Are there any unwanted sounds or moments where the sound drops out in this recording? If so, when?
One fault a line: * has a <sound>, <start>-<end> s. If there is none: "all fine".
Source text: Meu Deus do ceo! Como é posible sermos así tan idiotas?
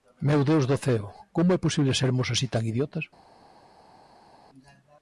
all fine